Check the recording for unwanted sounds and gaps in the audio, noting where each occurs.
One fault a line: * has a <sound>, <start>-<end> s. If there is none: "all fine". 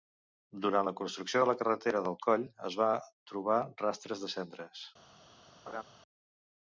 * has a laugh, 5.7-5.8 s